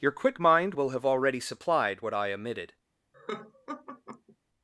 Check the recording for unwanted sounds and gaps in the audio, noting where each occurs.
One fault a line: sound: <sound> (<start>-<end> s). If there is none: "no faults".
sound: laugh (3.1-4.4 s)